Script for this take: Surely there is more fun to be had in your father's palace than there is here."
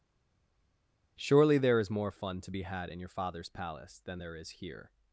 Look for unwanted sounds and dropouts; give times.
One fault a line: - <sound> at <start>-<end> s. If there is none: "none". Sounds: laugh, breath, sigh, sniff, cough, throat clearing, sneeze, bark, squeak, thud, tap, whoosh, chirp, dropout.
none